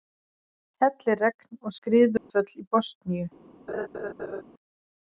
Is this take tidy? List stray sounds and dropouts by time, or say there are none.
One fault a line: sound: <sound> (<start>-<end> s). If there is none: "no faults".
sound: dropout (2.2-2.3 s)
sound: laugh (3.7-4.4 s)